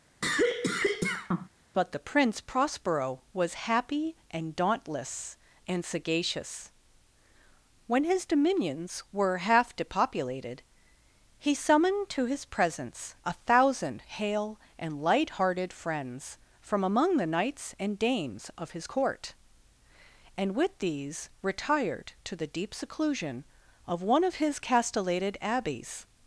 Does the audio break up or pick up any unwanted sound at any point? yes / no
yes